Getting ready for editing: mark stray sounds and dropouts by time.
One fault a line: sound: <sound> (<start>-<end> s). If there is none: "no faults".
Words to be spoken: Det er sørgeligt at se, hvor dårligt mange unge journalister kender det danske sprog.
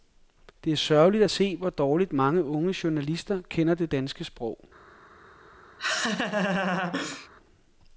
sound: laugh (5.8-7.3 s)